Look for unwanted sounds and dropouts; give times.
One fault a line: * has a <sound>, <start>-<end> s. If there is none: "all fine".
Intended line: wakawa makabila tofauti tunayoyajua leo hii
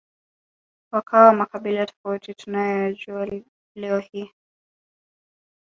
all fine